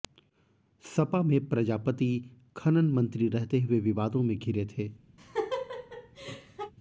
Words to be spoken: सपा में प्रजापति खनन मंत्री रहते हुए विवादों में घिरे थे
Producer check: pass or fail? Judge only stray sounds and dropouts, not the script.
fail